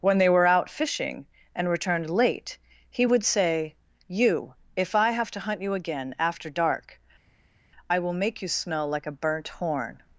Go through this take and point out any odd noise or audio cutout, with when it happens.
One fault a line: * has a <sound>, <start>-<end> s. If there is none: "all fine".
all fine